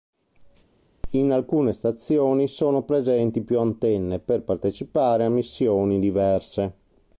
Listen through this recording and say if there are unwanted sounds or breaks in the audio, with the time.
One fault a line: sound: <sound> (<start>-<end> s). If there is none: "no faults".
no faults